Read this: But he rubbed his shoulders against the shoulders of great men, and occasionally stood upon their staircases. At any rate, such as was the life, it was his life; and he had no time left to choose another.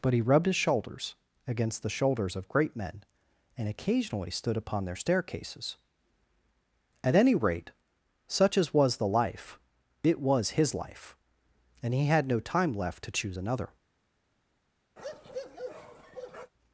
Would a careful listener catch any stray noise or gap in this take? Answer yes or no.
yes